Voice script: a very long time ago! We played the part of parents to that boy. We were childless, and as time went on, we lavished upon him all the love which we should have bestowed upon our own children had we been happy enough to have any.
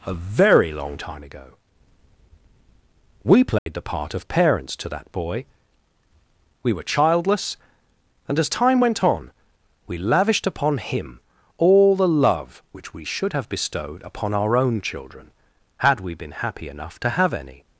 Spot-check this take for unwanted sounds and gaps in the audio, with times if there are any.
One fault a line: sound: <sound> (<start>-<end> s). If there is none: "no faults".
sound: dropout (3.6-3.7 s)